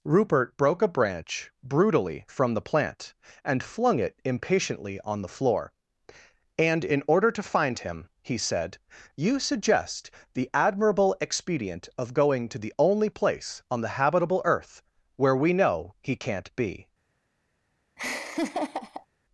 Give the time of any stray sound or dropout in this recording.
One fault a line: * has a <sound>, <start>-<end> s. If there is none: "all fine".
* has a laugh, 18.0-19.1 s